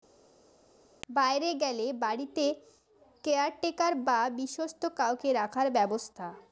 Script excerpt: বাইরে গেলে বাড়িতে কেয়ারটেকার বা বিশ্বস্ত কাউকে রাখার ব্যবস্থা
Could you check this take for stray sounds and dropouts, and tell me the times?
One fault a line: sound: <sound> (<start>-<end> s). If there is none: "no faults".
no faults